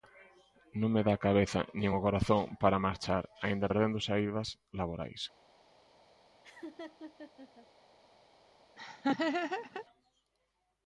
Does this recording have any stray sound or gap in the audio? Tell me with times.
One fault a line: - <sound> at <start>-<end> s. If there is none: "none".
- laugh at 6.4-7.7 s
- laugh at 8.8-9.9 s